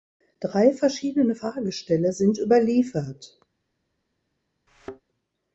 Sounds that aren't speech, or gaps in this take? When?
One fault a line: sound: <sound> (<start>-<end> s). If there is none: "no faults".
sound: thud (4.7-5.0 s)